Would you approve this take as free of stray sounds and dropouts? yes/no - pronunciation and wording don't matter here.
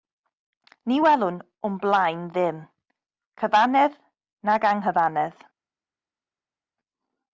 yes